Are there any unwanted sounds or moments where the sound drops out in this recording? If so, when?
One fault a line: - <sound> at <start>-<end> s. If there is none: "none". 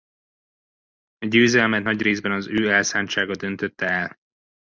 none